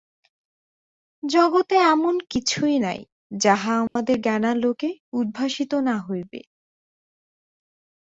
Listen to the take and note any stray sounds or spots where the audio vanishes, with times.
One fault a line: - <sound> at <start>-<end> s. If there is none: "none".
- dropout at 3.9-4.0 s